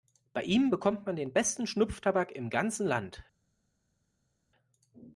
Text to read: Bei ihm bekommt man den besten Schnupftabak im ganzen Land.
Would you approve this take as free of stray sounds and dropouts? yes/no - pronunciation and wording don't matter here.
yes